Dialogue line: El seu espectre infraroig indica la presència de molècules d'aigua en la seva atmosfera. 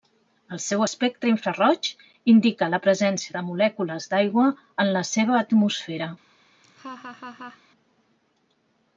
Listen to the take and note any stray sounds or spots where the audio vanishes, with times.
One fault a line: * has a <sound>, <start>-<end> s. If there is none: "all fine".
* has a laugh, 6.6-7.6 s